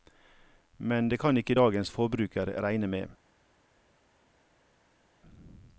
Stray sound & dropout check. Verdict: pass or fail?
pass